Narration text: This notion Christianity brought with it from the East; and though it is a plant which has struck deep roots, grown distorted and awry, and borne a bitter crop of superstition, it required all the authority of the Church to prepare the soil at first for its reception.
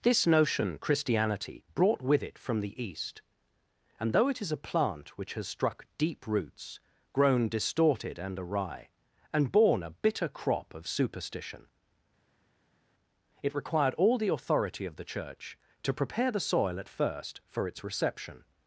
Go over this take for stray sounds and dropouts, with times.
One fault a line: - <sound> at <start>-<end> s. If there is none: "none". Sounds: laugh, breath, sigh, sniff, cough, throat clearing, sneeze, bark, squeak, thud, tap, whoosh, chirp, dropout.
none